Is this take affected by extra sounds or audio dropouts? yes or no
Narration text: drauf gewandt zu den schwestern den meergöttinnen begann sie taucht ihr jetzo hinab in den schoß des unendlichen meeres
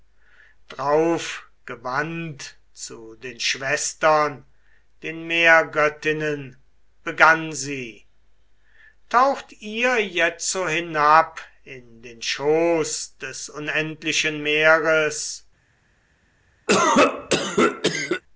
yes